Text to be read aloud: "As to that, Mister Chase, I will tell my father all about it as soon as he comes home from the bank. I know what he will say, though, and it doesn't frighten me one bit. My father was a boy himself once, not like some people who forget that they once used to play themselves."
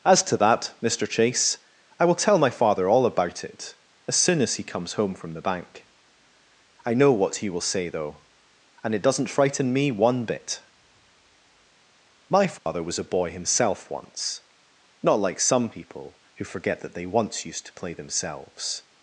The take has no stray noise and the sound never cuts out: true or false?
false